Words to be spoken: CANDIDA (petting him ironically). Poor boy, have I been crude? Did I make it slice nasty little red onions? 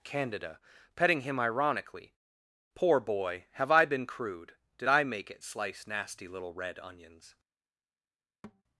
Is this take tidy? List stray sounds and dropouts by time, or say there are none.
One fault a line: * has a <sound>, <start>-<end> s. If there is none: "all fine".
* has a thud, 8.4-8.6 s